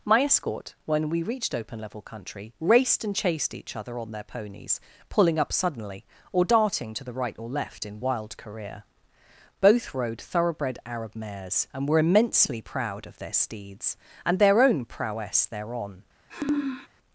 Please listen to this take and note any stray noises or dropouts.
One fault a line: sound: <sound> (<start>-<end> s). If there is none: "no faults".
sound: sniff (16.3-16.9 s)